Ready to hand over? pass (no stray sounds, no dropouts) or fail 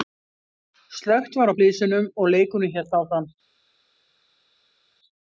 pass